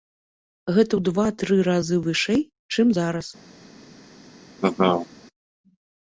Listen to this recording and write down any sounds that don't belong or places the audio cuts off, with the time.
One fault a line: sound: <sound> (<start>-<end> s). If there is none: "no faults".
sound: laugh (4.6-5.1 s)